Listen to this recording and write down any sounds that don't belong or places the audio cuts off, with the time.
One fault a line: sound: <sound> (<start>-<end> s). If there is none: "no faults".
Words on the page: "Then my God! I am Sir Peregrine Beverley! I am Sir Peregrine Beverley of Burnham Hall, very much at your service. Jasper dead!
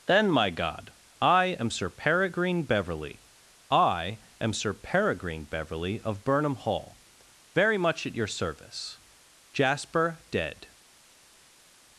no faults